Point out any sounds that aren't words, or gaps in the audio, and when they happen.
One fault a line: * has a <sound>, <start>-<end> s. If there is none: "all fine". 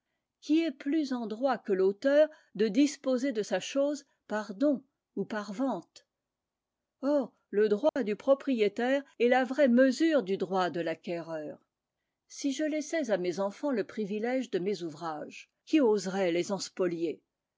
* has a dropout, 7.9-8.0 s